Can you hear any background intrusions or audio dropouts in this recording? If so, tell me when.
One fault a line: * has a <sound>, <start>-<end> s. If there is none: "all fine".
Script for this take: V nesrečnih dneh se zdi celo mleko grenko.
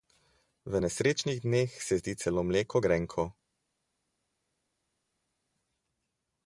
all fine